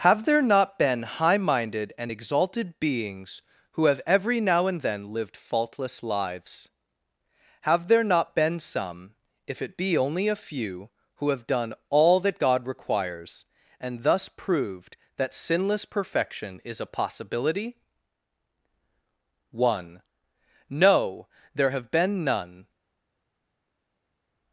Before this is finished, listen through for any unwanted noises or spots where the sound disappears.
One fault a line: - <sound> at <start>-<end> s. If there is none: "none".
none